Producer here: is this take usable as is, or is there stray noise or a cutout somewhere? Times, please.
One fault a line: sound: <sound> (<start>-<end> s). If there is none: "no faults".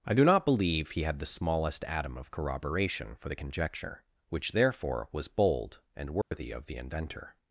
sound: dropout (6.2-6.3 s)